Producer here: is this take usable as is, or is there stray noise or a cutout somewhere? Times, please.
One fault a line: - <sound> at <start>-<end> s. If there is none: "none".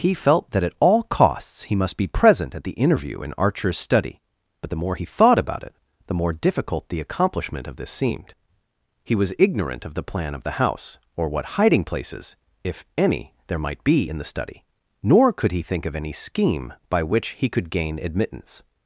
none